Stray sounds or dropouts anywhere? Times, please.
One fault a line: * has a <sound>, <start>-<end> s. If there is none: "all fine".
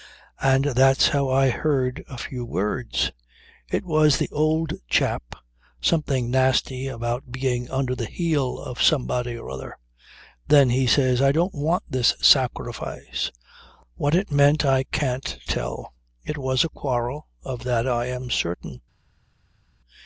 all fine